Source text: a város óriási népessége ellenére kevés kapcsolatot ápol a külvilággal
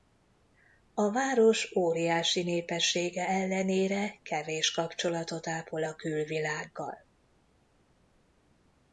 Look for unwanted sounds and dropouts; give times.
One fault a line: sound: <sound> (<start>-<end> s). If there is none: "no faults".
no faults